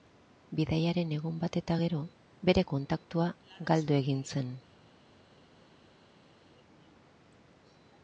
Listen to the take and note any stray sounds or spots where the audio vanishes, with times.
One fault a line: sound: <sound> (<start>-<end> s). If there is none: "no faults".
no faults